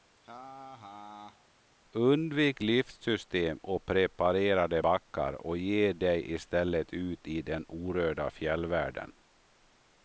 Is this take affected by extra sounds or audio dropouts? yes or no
yes